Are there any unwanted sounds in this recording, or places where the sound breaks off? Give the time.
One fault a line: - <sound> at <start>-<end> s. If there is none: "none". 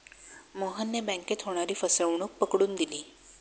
none